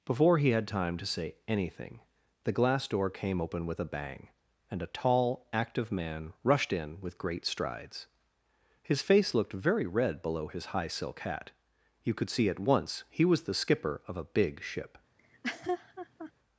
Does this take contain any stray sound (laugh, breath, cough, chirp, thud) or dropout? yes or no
yes